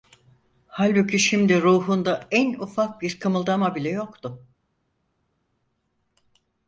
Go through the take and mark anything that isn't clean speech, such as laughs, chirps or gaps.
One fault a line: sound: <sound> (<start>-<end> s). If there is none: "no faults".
no faults